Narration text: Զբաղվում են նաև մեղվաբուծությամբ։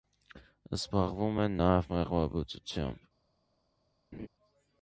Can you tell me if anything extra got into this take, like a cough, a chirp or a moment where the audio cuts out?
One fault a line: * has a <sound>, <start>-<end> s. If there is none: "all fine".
* has a laugh, 4.1-4.3 s